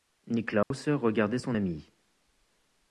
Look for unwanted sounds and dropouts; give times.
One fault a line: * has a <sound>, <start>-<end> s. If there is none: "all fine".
* has a dropout, 0.6-0.7 s